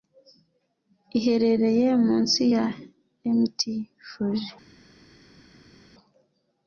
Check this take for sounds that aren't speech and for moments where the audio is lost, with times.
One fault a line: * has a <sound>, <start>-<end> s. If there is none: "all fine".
all fine